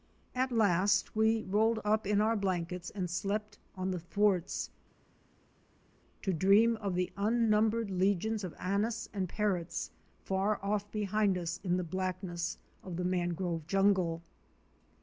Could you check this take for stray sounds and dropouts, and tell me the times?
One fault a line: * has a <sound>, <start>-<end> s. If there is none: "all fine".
all fine